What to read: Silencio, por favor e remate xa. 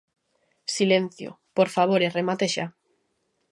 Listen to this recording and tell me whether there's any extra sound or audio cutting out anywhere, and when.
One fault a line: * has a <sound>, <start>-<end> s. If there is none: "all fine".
all fine